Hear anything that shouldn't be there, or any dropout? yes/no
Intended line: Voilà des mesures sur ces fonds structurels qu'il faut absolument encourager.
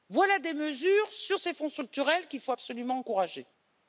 no